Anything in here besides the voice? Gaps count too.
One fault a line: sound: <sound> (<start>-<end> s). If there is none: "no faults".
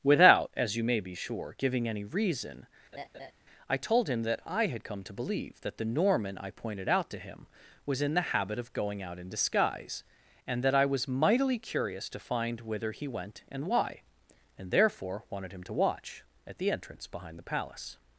sound: laugh (2.9-3.3 s)